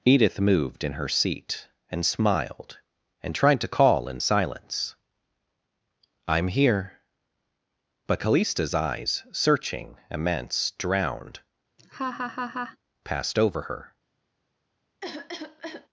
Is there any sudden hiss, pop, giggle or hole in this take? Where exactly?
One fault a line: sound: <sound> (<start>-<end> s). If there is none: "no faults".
sound: laugh (11.8-12.8 s)
sound: cough (15.0-15.9 s)